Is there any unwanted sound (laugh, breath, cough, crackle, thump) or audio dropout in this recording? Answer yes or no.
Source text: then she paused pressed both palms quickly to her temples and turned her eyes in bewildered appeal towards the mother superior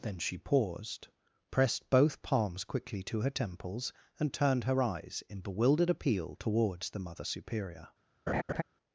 yes